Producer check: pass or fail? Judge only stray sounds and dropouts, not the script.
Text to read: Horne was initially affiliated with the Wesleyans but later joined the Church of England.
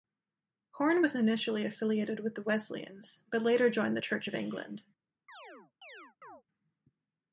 fail